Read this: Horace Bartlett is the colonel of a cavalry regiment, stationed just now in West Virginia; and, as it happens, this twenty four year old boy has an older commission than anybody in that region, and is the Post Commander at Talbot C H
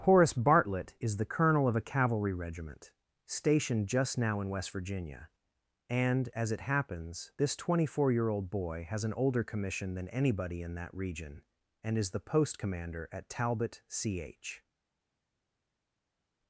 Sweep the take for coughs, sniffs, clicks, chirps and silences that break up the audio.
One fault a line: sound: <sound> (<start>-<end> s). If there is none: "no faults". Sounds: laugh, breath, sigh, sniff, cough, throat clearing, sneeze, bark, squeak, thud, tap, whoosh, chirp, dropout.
no faults